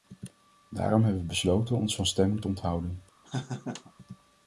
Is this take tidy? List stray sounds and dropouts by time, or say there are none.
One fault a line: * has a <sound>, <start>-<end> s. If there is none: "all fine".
* has a laugh, 3.2-3.9 s